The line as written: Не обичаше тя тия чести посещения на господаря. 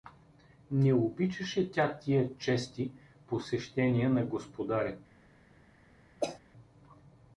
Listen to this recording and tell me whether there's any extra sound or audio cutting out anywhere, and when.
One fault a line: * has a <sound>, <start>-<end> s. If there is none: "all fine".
* has a cough, 6.2-6.4 s